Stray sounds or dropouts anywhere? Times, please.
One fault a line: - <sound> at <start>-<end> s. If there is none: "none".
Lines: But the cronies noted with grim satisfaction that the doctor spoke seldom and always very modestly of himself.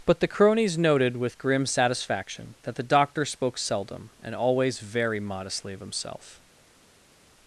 none